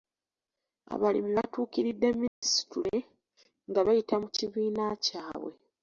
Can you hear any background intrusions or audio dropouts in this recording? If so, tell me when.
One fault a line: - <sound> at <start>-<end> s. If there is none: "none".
- dropout at 2.3-2.4 s